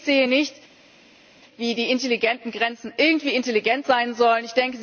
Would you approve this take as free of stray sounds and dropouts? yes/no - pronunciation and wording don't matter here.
yes